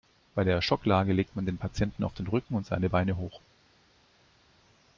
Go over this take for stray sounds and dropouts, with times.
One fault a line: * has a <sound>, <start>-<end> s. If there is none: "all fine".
all fine